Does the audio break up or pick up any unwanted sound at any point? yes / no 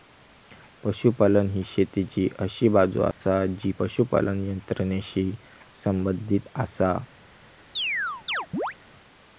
yes